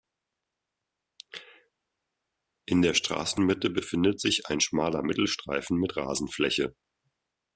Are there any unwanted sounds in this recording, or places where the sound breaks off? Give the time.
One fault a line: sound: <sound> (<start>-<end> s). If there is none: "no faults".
no faults